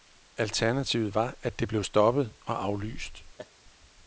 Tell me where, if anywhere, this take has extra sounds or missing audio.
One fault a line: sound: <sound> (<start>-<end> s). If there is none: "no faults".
sound: laugh (3.4-3.5 s)